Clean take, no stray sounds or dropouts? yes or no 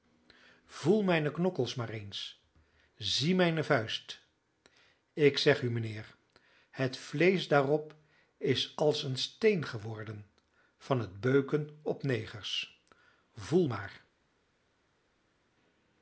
yes